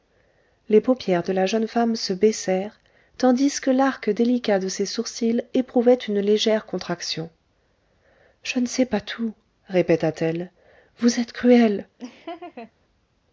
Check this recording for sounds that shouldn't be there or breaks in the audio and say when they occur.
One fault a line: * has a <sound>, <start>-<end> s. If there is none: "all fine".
* has a laugh, 12.0-12.7 s